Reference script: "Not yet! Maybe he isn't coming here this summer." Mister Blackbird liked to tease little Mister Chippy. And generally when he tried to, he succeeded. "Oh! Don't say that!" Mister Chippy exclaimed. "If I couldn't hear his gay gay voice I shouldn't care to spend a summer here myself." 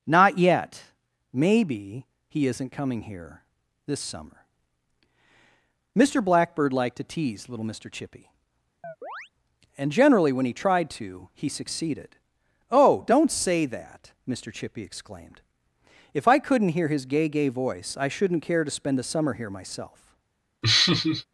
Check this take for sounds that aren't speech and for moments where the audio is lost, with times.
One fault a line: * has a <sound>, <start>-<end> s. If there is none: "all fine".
* has a chirp, 8.8-9.3 s
* has a laugh, 20.6-21.3 s